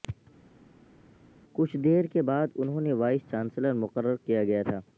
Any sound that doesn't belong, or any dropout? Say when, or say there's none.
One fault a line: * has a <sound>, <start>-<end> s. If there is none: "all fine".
all fine